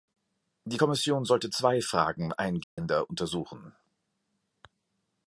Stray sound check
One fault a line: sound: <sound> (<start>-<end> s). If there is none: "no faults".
sound: dropout (2.6-2.8 s)